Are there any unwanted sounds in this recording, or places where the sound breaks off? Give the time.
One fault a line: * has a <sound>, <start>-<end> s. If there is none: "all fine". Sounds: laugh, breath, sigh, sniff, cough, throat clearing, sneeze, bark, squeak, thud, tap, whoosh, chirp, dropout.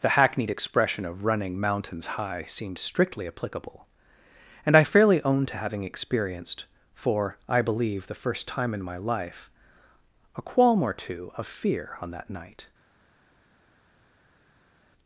all fine